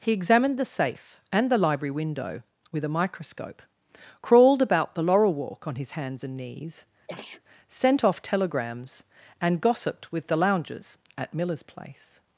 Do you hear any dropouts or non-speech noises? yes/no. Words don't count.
yes